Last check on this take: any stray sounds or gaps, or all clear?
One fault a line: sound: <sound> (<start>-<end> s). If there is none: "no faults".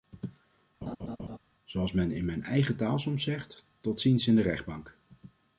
sound: laugh (0.8-1.4 s)